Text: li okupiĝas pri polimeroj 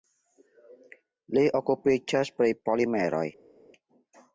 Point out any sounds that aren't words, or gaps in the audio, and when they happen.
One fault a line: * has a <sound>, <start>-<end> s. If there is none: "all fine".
all fine